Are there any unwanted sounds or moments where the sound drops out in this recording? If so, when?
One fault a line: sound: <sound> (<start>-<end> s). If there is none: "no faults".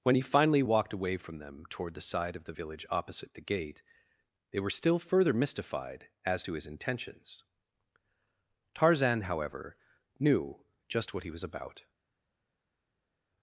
no faults